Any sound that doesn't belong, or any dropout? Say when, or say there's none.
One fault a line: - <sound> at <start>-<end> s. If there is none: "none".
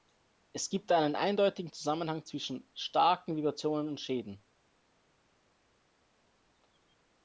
none